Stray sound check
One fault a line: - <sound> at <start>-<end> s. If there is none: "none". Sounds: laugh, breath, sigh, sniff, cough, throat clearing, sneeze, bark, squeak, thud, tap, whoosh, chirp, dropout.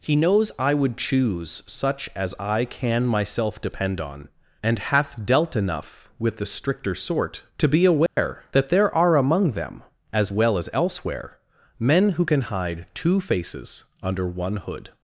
- dropout at 8.1-8.2 s